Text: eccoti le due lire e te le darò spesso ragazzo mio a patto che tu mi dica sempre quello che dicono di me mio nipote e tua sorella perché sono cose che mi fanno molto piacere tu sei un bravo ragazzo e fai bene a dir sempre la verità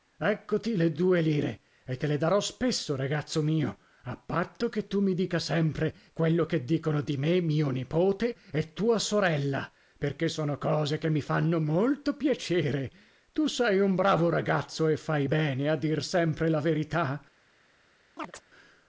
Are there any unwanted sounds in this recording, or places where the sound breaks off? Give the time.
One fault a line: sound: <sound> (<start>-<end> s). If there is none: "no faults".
sound: chirp (18.2-18.4 s)